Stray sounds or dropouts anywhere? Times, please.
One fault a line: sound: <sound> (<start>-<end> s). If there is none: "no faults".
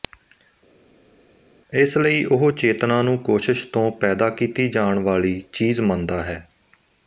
no faults